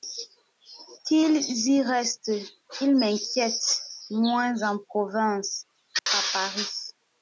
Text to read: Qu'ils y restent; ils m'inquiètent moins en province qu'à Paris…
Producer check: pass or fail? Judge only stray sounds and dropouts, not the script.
fail